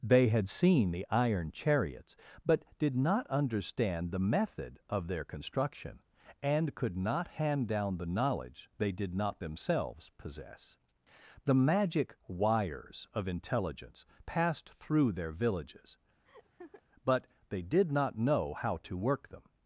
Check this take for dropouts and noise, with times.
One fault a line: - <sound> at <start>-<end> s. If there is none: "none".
- laugh at 16.2-16.8 s